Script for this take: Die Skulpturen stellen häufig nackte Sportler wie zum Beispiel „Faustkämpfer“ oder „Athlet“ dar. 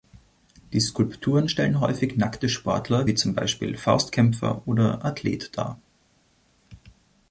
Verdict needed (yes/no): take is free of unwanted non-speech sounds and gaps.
yes